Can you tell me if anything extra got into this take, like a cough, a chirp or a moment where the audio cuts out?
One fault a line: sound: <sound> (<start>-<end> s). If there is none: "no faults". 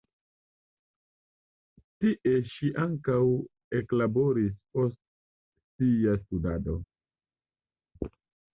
no faults